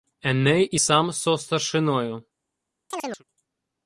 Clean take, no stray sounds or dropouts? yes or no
no